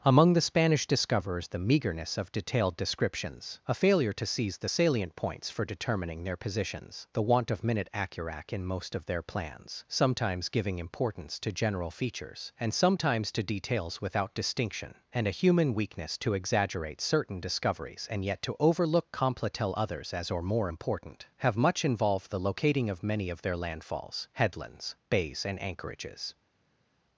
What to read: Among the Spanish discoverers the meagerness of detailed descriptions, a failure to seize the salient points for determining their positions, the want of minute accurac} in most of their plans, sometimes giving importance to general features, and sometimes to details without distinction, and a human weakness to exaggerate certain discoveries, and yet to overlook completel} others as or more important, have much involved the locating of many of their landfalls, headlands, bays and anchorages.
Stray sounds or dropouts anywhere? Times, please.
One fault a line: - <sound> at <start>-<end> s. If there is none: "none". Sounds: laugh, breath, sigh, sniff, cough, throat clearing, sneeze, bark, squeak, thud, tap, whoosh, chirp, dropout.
none